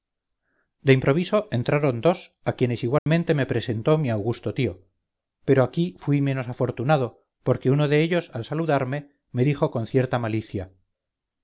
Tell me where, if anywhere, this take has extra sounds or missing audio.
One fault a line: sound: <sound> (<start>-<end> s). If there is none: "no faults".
sound: dropout (3.0-3.1 s)